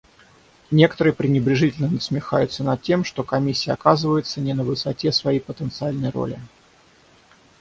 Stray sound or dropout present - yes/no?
no